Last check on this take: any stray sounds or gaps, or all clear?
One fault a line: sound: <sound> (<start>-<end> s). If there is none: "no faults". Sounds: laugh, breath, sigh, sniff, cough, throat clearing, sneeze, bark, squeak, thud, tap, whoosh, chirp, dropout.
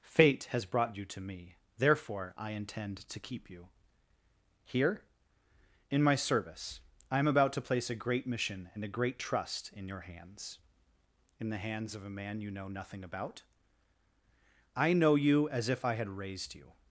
no faults